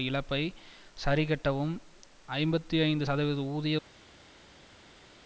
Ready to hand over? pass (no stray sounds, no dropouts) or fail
pass